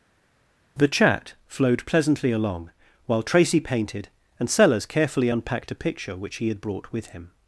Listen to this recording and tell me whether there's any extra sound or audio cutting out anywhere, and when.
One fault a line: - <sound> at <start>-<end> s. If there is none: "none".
none